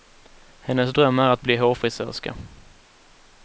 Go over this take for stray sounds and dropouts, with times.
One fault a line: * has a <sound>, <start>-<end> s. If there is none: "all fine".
all fine